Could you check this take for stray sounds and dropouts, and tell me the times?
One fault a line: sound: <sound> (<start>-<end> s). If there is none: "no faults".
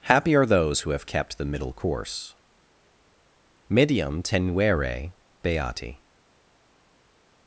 no faults